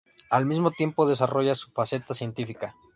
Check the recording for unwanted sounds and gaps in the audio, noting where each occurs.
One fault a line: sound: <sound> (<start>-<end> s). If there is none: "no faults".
no faults